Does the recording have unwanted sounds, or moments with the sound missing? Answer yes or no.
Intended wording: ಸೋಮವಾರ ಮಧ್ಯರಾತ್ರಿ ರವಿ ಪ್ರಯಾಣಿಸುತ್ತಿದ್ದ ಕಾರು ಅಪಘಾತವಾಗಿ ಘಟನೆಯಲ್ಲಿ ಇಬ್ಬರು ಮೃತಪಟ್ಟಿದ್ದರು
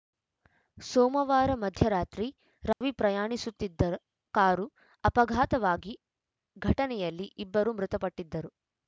yes